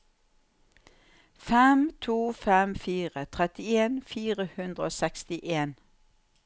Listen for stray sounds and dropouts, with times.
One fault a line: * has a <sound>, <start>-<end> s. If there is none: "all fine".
all fine